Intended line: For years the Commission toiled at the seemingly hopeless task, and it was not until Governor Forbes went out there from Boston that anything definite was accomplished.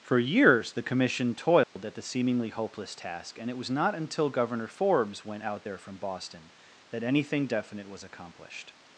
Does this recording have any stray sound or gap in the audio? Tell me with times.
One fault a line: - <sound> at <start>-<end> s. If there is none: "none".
- dropout at 1.6-1.8 s